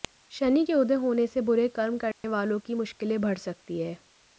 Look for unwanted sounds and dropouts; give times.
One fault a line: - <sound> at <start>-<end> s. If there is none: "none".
- dropout at 2.1-2.2 s